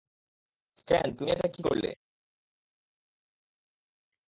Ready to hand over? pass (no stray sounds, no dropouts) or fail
pass